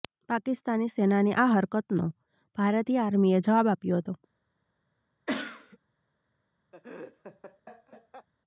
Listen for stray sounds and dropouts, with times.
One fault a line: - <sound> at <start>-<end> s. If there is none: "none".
- cough at 5.3-5.8 s
- laugh at 6.7-8.3 s